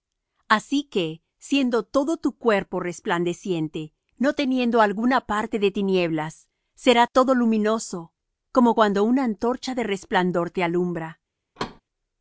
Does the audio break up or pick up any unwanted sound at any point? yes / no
yes